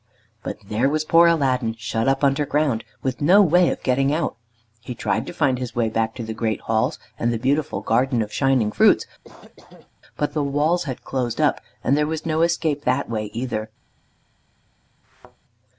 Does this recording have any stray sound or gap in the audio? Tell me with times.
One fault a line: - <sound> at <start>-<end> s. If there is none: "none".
- cough at 9.2-9.9 s
- thud at 15.0-15.4 s